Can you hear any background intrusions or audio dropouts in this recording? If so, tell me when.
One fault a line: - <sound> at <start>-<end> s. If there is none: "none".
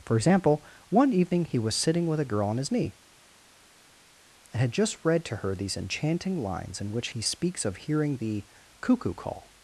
none